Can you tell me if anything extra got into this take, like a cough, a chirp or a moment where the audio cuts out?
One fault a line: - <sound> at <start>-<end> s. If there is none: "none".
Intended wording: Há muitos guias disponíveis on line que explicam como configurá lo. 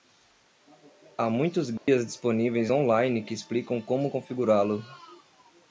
- dropout at 1.8-1.9 s